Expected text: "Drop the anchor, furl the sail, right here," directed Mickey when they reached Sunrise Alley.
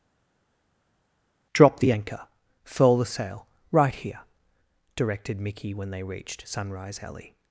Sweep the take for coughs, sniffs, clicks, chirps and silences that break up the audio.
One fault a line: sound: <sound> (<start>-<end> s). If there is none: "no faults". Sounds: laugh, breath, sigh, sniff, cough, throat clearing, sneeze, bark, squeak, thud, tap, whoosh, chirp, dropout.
no faults